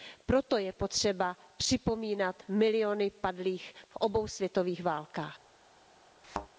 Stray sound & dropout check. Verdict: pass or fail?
fail